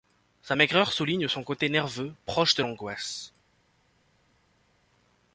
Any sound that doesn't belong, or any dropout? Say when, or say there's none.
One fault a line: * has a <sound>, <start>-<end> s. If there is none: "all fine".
all fine